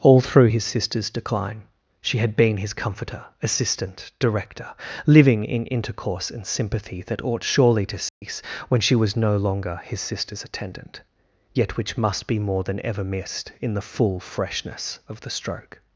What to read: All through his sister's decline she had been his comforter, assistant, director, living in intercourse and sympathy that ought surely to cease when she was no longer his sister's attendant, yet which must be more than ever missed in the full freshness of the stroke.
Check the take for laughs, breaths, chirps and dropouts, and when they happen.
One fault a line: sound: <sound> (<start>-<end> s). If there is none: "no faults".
sound: dropout (8.1-8.2 s)